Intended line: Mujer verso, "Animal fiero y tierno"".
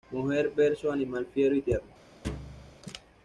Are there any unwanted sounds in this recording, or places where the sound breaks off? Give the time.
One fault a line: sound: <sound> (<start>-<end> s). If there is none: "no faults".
sound: thud (2.2-2.8 s)